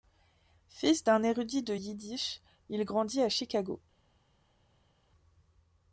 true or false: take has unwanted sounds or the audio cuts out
false